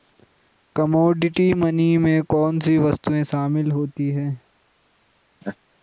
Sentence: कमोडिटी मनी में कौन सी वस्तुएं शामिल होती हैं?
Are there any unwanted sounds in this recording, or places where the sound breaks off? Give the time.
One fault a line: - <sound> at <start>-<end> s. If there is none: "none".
- laugh at 5.4-5.6 s